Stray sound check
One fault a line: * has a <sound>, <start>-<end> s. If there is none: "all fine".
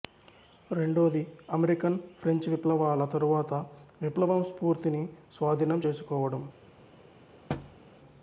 * has a thud, 7.5-7.8 s